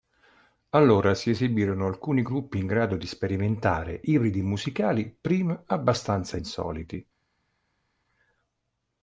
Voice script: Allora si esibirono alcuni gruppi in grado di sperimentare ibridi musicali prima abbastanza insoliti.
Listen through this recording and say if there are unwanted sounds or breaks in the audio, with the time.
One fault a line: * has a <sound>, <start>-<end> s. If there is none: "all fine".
all fine